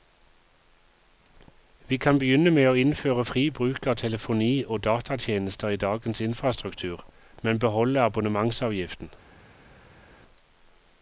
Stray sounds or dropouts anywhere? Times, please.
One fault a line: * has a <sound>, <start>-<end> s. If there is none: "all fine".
all fine